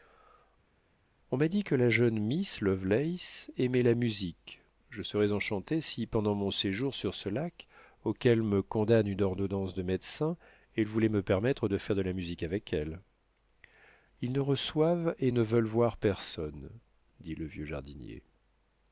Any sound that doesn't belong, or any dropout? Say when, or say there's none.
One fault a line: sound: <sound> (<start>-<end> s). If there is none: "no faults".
no faults